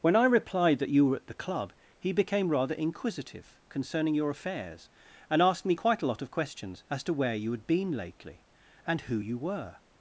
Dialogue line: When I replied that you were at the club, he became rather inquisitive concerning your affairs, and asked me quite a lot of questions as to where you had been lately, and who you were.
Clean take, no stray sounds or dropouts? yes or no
yes